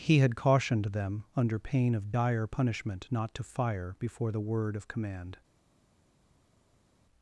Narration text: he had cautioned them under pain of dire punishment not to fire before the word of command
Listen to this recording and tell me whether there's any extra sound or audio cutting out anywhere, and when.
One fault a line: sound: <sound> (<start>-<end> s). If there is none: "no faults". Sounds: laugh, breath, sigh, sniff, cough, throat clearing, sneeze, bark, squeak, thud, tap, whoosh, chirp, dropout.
no faults